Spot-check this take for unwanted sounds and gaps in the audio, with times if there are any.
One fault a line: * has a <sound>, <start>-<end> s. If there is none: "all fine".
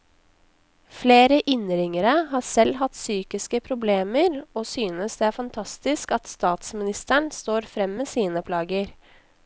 all fine